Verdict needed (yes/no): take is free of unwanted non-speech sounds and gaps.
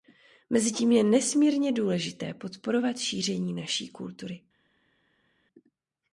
yes